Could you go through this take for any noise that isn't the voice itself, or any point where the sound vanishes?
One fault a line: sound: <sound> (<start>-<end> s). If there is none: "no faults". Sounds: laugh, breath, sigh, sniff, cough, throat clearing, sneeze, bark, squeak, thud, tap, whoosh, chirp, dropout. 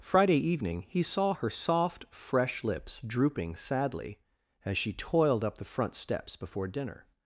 no faults